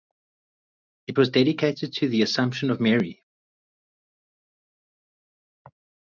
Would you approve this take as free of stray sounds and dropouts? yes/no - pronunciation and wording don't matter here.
yes